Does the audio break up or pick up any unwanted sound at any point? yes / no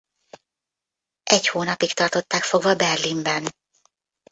no